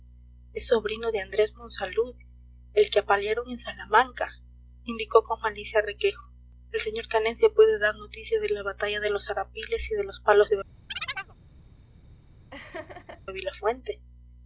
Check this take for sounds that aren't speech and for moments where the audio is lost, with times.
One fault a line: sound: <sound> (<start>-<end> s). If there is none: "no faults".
sound: chirp (10.9-11.3 s)
sound: laugh (12.5-13.2 s)